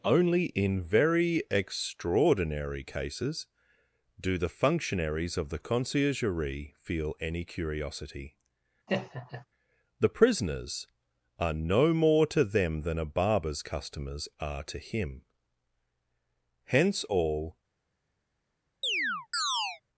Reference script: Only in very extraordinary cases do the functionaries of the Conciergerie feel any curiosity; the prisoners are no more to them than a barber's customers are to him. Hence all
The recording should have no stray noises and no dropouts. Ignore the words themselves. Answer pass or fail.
fail